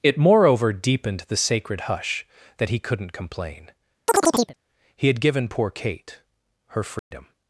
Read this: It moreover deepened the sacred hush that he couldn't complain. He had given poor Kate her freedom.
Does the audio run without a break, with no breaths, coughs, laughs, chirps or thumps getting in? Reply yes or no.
no